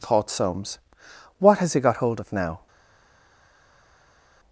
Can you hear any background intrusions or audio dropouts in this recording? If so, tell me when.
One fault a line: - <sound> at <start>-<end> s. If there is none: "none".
none